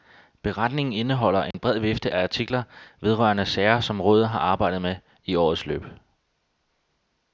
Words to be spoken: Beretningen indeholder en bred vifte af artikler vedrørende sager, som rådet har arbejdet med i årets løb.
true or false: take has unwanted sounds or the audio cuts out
true